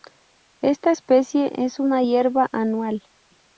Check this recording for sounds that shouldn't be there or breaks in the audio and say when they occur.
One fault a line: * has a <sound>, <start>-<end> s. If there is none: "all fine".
all fine